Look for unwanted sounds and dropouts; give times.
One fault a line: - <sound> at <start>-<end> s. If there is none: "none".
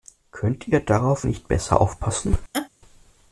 - laugh at 2.5-2.7 s